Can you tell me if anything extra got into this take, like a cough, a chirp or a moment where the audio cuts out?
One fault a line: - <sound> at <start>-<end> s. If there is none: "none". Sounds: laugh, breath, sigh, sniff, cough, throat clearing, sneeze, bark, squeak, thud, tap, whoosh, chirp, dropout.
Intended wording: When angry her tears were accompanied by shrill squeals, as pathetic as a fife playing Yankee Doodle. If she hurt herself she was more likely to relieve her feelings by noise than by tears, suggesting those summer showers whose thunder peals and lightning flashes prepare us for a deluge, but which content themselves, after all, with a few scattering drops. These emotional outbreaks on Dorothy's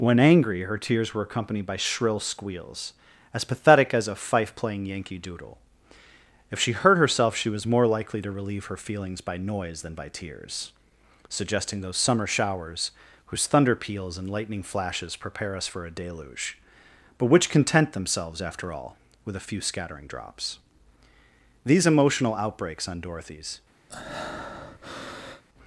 - breath at 23.9-25.4 s